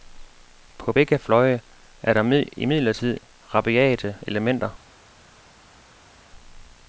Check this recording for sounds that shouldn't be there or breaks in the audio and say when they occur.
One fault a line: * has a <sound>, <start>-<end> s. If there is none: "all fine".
all fine